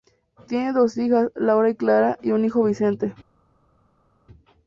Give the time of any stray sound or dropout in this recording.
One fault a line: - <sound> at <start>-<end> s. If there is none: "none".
none